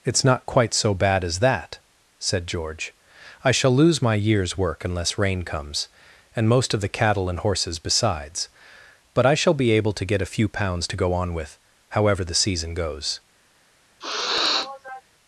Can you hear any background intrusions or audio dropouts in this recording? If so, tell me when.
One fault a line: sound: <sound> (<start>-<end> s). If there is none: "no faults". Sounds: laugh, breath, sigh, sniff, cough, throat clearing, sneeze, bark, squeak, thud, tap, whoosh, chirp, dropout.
sound: sniff (14.0-15.0 s)